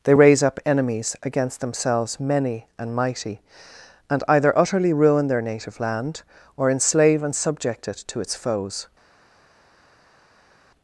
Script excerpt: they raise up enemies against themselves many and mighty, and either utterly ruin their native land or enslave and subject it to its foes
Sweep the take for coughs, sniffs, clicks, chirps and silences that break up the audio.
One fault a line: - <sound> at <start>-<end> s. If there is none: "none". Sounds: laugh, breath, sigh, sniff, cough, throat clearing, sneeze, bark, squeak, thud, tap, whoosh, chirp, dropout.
none